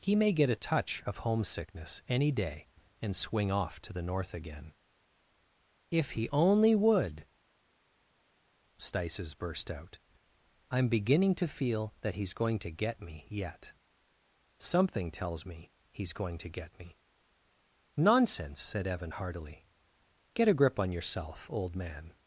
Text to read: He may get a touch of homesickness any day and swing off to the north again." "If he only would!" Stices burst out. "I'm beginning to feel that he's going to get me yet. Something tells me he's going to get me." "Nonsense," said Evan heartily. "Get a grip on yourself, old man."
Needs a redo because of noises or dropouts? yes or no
no